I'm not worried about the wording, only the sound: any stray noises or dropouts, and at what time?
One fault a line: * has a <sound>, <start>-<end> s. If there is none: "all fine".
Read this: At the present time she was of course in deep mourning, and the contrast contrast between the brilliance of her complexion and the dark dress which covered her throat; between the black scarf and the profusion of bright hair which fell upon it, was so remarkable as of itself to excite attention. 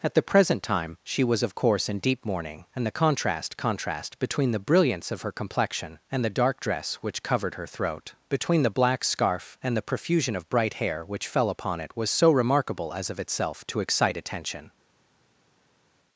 all fine